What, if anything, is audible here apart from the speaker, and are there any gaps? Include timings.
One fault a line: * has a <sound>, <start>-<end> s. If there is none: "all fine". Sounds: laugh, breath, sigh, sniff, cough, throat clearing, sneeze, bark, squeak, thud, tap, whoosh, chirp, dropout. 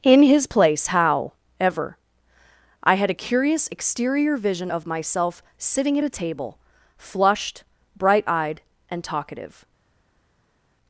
all fine